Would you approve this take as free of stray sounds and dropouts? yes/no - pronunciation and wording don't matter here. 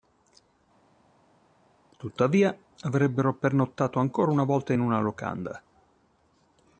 yes